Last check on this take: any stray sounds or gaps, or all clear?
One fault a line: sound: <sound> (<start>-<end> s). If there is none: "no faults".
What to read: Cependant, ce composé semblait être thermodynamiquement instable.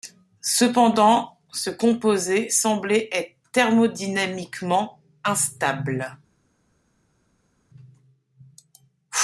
no faults